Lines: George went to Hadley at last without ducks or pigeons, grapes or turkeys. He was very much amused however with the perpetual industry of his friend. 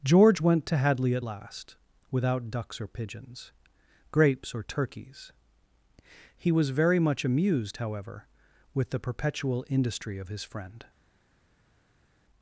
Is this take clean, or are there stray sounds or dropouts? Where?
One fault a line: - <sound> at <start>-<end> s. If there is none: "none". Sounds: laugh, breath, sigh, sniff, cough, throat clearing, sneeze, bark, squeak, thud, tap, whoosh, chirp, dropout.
none